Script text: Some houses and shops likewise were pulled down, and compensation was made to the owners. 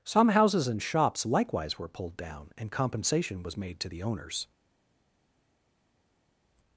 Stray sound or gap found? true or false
false